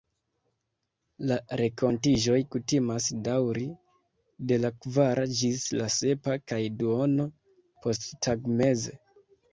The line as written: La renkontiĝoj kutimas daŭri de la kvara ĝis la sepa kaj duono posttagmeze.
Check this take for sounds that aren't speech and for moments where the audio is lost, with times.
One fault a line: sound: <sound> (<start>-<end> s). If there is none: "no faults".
no faults